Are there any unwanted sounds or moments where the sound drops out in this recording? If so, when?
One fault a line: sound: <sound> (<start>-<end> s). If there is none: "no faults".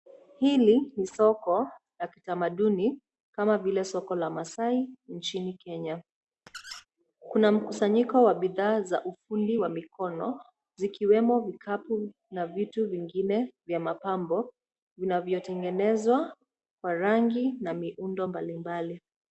sound: squeak (6.5-6.9 s)